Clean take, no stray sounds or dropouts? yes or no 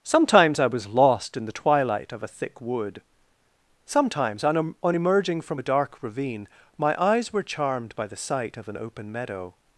yes